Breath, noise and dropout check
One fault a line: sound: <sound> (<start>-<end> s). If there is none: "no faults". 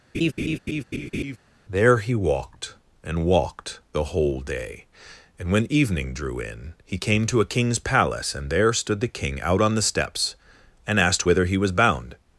sound: laugh (0.1-1.4 s)